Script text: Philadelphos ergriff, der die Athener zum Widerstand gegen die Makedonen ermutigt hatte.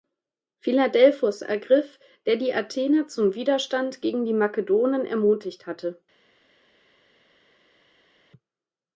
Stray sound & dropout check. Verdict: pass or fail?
pass